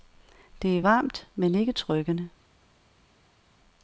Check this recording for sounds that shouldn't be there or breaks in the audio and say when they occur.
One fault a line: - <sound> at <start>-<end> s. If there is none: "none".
none